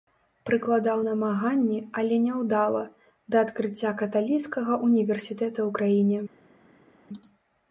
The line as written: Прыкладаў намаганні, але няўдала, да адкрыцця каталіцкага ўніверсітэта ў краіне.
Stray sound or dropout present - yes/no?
no